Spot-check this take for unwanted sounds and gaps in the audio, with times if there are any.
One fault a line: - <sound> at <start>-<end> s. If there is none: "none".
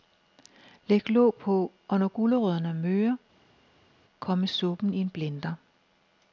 none